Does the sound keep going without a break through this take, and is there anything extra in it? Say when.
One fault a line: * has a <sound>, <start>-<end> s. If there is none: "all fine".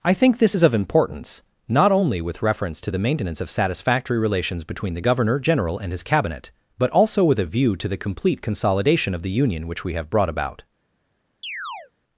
* has a chirp, 11.4-11.9 s